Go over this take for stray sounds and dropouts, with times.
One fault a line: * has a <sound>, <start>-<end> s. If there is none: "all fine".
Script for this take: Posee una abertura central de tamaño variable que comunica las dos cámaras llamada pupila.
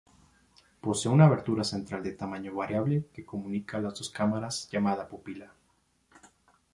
all fine